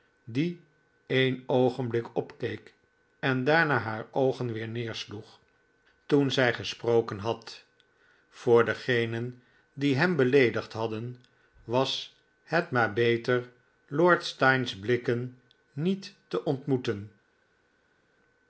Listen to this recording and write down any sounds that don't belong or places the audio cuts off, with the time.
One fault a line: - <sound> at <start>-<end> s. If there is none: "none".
none